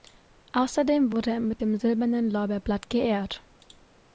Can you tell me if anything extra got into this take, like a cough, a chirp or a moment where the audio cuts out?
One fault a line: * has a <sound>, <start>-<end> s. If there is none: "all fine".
all fine